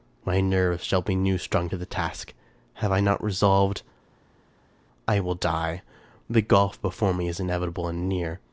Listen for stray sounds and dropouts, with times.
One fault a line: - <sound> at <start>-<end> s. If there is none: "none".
none